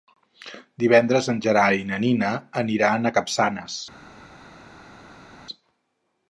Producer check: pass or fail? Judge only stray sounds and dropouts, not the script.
pass